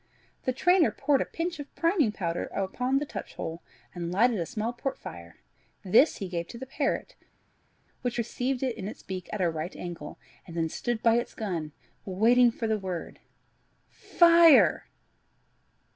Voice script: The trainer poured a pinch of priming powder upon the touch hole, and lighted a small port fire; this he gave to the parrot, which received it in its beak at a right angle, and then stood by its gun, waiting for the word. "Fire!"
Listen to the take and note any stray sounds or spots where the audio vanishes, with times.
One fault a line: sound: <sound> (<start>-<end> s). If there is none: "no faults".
no faults